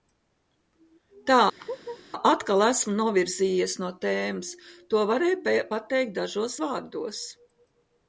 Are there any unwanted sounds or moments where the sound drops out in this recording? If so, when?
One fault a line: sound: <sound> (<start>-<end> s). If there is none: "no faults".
sound: laugh (1.6-2.0 s)